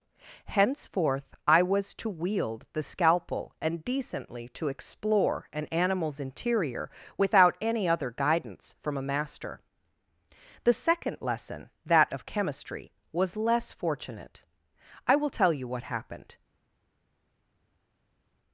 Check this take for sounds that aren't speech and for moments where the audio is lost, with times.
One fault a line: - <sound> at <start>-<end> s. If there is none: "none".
none